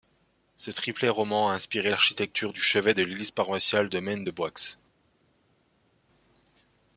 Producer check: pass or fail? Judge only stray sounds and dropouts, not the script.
pass